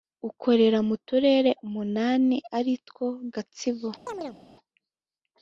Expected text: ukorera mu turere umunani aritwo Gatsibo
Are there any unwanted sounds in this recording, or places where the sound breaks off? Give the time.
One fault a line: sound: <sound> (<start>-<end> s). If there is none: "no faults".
sound: chirp (4.1-4.4 s)